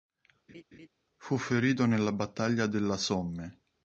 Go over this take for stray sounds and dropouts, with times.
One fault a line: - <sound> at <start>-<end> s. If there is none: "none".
- laugh at 0.5-0.9 s